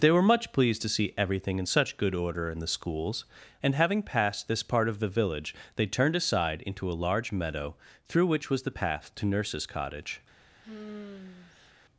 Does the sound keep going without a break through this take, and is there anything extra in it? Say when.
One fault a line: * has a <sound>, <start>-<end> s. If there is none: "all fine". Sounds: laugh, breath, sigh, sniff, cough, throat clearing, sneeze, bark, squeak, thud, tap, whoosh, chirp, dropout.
* has a sigh, 10.6-11.7 s